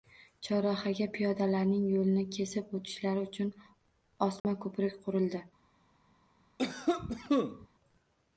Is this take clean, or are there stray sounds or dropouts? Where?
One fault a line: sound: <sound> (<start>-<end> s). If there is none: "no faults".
sound: dropout (4.4-4.4 s)
sound: cough (6.6-7.7 s)